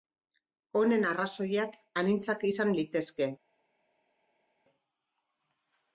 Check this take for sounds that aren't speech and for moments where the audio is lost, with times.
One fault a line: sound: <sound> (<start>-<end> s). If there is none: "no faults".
no faults